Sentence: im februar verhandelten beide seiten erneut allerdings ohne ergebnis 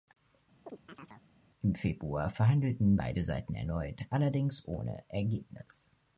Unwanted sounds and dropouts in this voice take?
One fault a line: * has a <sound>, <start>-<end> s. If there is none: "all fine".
* has a chirp, 0.7-1.3 s